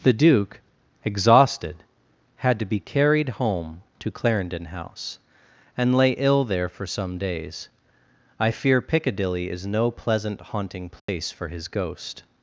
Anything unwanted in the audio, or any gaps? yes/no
yes